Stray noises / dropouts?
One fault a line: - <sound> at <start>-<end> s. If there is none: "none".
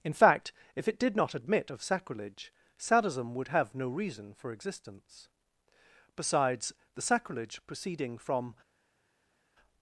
none